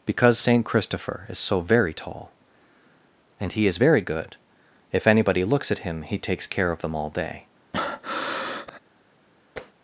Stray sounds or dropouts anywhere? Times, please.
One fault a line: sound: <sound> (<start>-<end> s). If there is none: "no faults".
sound: breath (7.7-8.8 s)
sound: tap (9.6-9.7 s)